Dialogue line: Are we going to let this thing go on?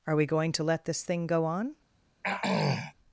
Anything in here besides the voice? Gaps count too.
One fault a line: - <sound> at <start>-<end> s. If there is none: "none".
- throat clearing at 2.2-2.9 s